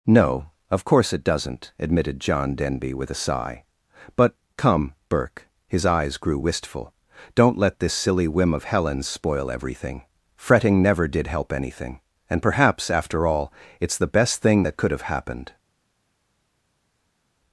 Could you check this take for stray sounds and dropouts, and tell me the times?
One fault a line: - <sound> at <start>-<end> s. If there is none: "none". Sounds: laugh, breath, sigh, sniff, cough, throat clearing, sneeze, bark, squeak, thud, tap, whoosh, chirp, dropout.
none